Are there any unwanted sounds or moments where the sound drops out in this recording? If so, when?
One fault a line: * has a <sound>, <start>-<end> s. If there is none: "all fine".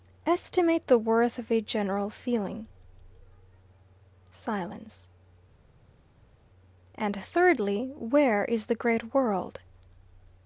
all fine